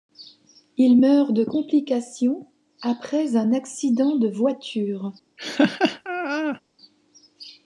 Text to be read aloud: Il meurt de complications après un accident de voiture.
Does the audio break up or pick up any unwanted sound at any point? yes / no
yes